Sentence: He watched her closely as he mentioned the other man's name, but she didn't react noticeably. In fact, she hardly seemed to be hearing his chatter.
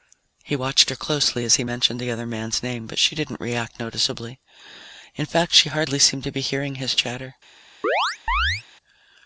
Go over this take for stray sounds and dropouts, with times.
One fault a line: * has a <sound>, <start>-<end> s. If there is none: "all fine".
* has a chirp, 7.8-8.6 s